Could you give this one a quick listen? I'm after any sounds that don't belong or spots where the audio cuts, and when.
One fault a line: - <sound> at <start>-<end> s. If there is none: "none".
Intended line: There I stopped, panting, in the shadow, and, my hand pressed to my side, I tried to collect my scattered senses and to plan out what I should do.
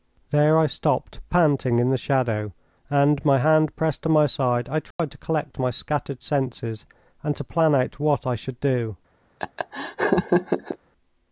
- dropout at 4.9-5.0 s
- laugh at 9.4-10.8 s